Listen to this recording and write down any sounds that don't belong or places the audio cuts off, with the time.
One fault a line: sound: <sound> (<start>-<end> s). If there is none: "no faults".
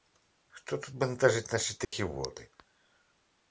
sound: dropout (1.8-1.9 s)